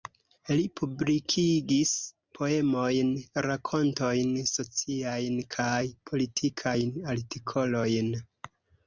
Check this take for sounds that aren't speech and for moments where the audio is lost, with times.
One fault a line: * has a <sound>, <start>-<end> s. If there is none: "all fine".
all fine